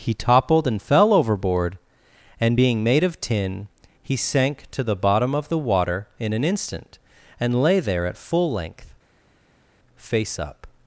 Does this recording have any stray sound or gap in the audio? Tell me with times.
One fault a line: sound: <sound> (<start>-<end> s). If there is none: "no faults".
no faults